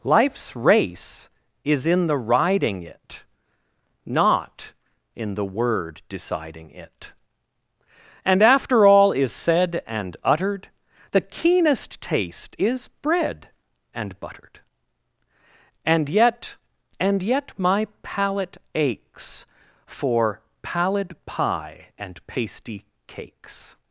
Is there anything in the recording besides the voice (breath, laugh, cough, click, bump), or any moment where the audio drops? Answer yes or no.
no